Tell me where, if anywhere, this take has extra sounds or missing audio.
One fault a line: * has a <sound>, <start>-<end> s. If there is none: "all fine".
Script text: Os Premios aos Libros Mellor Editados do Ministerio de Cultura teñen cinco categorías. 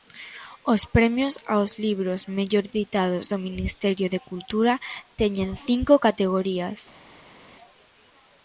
all fine